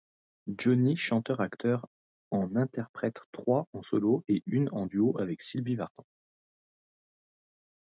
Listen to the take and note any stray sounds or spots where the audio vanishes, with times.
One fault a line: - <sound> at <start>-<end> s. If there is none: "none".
none